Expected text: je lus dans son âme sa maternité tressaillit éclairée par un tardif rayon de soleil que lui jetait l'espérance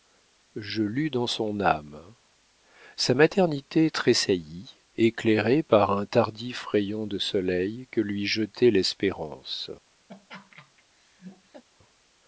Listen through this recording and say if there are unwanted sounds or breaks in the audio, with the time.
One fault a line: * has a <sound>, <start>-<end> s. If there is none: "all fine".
* has a laugh, 10.1-11.6 s